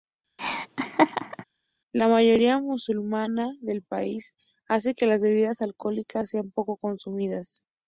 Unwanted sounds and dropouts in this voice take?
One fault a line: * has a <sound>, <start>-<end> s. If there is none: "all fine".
* has a laugh, 0.4-1.4 s